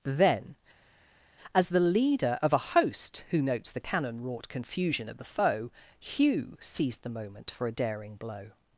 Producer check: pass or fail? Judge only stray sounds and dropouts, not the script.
pass